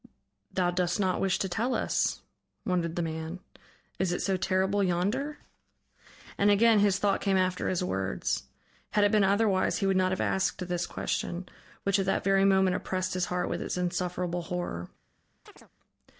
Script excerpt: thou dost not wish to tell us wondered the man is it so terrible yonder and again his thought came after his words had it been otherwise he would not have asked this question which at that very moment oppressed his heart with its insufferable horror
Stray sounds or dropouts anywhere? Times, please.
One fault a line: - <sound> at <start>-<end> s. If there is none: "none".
- chirp at 15.5-15.7 s